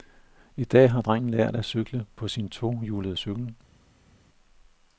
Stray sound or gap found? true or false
false